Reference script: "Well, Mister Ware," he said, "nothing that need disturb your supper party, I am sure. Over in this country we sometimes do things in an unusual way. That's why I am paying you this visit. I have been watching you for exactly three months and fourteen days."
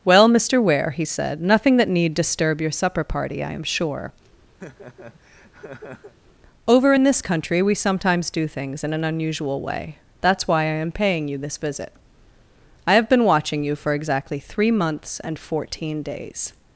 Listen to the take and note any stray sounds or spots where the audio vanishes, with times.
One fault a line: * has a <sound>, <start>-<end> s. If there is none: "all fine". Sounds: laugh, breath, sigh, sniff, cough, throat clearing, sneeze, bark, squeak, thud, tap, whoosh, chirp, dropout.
* has a laugh, 4.6-6.1 s